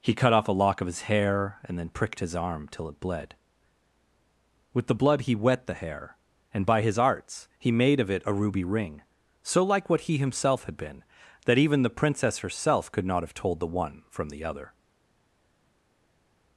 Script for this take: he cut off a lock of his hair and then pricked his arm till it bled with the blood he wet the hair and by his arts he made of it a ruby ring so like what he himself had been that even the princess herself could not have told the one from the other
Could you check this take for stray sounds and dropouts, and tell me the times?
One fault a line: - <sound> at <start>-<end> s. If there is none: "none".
none